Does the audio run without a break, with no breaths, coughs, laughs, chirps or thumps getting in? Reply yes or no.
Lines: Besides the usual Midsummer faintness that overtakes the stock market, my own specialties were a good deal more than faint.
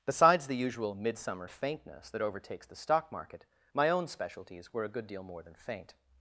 yes